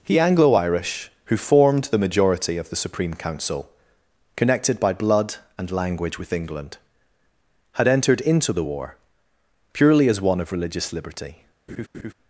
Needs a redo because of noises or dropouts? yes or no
yes